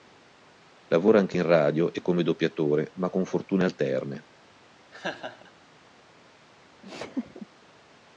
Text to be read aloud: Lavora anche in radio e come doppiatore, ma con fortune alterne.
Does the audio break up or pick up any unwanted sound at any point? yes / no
yes